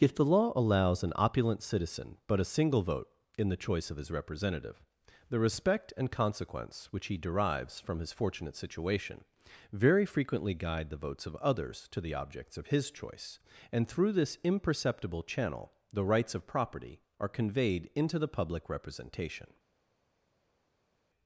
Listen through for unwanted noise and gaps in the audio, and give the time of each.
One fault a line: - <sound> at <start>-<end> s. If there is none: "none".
none